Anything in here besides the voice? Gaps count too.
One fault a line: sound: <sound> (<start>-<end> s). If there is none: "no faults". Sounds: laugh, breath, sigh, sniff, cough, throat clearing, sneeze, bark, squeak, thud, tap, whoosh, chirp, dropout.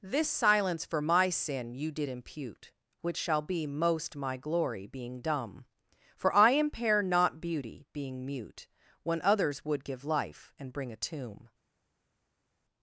no faults